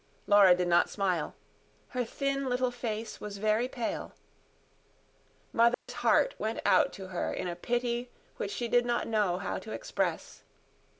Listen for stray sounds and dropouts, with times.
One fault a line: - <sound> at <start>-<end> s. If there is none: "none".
- dropout at 5.7-5.9 s